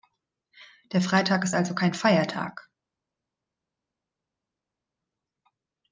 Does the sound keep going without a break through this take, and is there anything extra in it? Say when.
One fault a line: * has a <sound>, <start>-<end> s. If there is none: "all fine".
all fine